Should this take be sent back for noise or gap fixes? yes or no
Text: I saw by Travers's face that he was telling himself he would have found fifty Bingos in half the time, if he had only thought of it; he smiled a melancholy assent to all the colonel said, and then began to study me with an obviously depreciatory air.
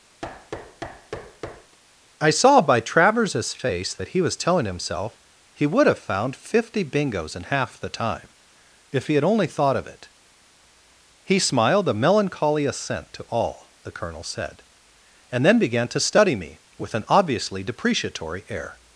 yes